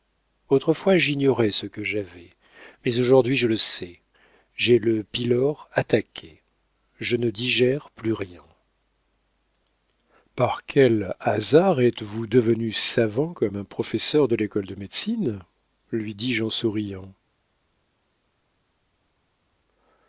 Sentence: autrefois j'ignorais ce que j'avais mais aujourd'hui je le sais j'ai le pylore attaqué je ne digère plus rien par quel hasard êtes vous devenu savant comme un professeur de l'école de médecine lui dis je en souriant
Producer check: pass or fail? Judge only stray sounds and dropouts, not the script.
pass